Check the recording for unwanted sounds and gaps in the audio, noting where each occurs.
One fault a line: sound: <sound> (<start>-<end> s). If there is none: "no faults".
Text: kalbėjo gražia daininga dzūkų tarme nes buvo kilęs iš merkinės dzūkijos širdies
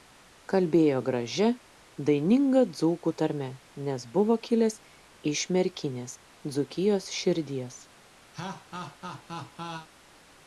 sound: laugh (8.3-9.9 s)